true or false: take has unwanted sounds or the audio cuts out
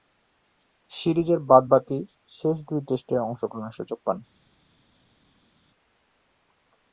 false